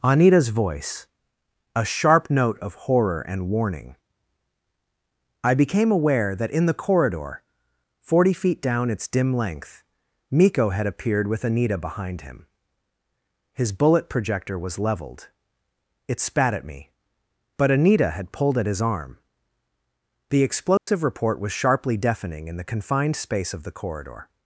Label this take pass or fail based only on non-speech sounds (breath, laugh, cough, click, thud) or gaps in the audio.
fail